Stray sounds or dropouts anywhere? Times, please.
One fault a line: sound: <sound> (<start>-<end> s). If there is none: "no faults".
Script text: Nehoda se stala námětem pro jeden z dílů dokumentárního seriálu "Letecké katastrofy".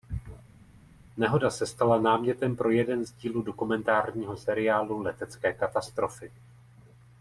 no faults